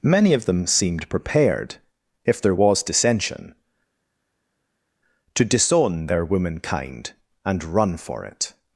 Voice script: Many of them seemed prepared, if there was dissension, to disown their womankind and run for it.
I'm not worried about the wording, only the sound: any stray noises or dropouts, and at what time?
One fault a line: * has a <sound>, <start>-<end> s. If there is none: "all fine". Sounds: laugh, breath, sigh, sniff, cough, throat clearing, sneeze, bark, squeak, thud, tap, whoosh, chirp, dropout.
all fine